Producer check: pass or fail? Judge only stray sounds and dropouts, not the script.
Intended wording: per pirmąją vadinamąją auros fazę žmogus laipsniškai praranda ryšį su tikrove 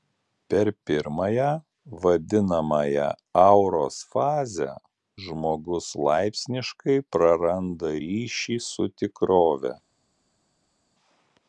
pass